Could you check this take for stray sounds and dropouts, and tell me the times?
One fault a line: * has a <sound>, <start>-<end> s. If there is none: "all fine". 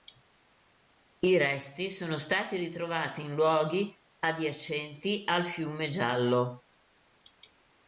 all fine